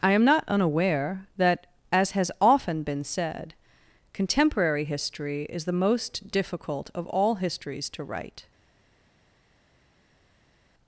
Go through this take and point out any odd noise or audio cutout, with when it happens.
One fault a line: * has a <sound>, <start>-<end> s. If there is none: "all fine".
all fine